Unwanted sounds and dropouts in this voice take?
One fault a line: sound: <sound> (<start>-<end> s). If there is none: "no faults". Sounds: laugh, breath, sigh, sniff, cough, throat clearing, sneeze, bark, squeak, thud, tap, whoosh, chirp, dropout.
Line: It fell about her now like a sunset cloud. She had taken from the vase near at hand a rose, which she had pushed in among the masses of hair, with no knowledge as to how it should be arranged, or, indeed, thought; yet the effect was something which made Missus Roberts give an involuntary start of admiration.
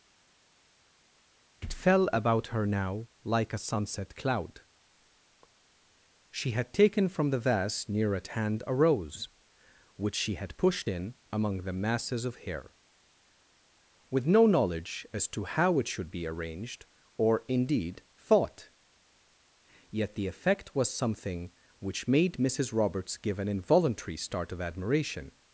no faults